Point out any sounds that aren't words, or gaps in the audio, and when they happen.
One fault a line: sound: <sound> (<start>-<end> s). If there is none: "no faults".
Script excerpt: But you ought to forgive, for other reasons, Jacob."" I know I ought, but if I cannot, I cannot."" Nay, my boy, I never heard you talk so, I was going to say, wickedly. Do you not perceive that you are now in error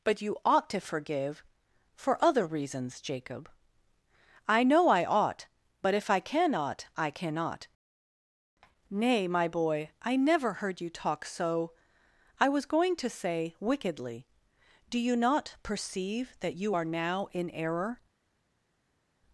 no faults